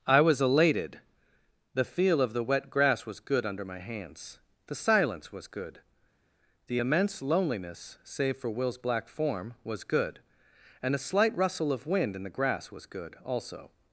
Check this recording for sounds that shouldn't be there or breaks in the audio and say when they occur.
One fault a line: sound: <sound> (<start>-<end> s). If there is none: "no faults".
no faults